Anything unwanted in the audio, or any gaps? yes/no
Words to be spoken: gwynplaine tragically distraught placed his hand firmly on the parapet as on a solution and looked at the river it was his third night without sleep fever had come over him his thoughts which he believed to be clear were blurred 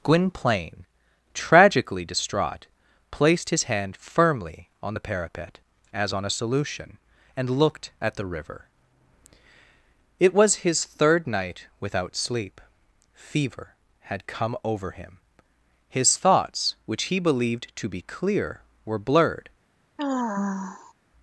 yes